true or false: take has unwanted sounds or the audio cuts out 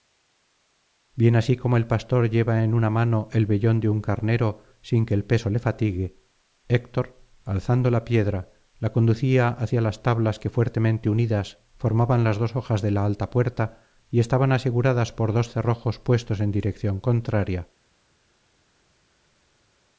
false